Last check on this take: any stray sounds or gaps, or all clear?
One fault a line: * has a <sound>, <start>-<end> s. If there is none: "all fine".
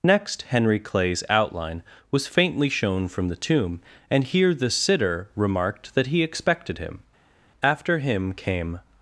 all fine